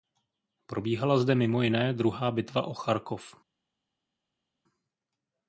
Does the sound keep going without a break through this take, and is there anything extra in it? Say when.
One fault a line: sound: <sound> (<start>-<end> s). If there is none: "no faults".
no faults